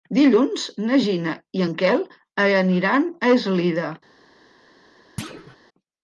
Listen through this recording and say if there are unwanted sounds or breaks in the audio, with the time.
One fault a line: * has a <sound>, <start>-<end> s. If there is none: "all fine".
* has a thud, 5.2-5.6 s